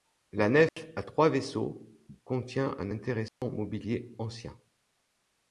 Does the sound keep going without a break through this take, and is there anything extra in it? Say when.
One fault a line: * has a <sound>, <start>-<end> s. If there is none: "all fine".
* has a dropout, 0.7-0.8 s
* has a dropout, 3.3-3.4 s